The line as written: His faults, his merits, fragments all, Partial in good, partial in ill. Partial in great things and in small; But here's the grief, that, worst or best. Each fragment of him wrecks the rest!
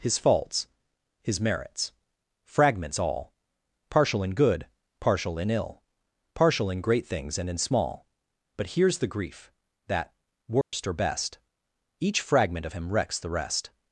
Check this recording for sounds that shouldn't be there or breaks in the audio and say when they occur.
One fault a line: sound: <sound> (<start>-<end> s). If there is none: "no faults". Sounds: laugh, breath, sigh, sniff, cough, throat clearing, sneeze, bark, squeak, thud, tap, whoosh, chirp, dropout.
sound: dropout (10.6-10.7 s)